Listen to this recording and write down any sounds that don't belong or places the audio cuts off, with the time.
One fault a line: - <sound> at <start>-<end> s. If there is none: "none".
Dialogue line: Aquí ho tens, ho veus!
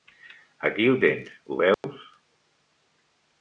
- dropout at 1.7-1.8 s